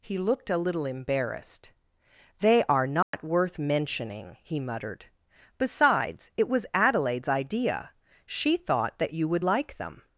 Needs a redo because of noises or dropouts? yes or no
yes